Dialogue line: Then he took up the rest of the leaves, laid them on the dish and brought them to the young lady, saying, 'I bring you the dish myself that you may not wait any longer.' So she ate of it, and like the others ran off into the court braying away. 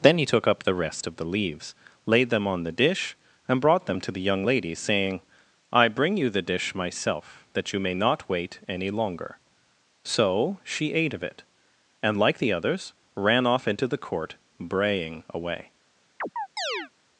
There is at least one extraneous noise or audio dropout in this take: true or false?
true